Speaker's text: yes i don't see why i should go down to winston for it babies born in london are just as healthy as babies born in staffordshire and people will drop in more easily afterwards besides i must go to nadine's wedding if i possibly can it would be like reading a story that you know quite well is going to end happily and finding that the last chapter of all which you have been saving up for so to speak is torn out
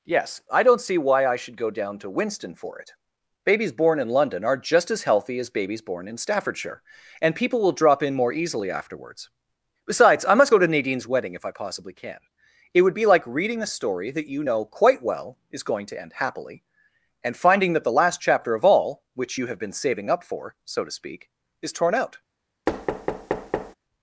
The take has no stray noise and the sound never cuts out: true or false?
false